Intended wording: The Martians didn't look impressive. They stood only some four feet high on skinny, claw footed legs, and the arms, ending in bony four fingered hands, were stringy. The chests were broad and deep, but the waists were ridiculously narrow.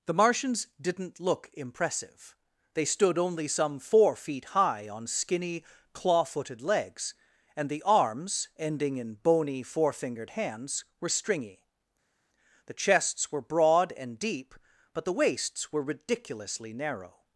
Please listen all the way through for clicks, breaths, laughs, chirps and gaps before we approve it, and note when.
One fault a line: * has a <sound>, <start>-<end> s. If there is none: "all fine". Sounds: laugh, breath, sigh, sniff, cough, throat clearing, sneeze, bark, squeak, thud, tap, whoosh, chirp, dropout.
all fine